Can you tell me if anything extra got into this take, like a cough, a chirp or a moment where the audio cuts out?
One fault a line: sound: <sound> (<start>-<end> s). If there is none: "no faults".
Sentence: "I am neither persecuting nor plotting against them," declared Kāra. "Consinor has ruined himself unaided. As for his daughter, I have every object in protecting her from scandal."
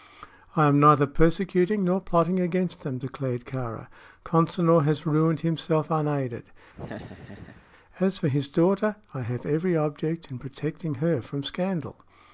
sound: laugh (6.7-7.7 s)